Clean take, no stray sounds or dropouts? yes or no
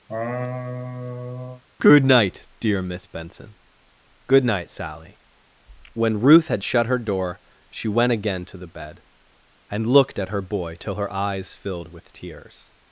no